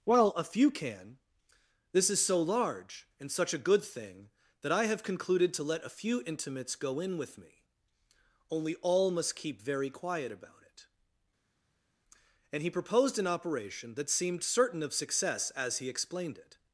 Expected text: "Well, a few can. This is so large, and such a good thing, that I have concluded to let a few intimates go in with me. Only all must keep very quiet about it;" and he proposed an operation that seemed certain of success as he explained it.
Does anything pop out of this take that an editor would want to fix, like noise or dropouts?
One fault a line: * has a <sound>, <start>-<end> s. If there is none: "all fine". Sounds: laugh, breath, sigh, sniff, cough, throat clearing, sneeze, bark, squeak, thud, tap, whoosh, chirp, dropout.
all fine